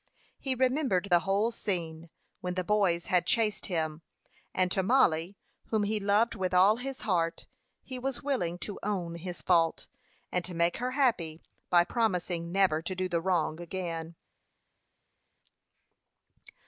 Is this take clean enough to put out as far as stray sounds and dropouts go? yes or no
yes